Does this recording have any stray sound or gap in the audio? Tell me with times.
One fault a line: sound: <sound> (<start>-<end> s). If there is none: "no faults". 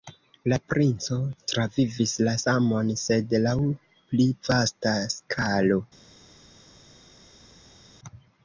no faults